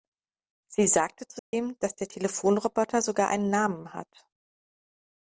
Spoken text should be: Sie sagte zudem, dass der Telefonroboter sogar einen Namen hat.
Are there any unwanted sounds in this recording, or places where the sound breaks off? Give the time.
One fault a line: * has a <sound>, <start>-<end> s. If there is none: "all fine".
* has a dropout, 1.4-1.5 s